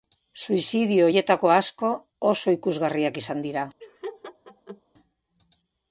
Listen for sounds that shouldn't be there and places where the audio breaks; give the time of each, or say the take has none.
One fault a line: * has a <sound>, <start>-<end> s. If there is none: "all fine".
* has a laugh, 3.8-4.8 s